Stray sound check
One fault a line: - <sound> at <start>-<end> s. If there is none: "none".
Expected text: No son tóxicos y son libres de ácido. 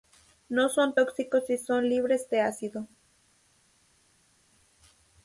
none